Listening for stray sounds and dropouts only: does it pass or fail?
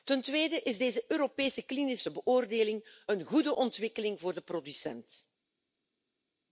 pass